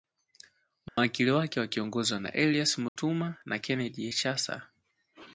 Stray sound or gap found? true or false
true